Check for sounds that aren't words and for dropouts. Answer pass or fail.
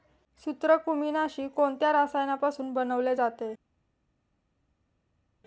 pass